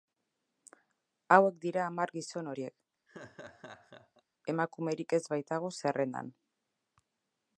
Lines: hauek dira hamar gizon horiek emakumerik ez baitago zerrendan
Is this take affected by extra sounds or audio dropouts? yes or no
yes